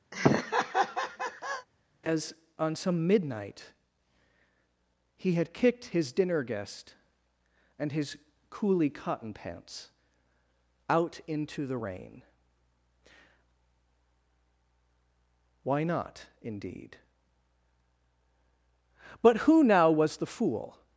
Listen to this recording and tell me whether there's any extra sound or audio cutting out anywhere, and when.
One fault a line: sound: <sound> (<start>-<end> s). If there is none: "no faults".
sound: laugh (0.1-1.7 s)